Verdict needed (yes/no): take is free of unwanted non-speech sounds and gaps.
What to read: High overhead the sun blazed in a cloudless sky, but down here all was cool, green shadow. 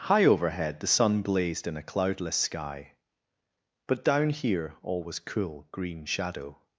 yes